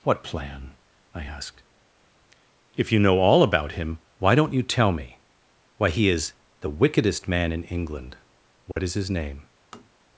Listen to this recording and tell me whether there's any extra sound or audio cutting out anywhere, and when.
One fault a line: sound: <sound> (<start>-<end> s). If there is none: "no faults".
sound: dropout (8.7-8.8 s)
sound: tap (9.7-9.9 s)